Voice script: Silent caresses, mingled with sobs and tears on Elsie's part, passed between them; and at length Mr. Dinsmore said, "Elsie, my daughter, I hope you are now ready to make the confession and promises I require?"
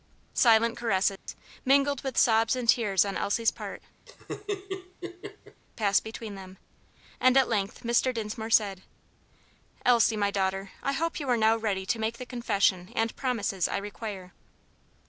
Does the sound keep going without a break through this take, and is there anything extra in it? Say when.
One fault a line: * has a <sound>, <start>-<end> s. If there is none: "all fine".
* has a dropout, 1.2-1.3 s
* has a laugh, 4.1-5.6 s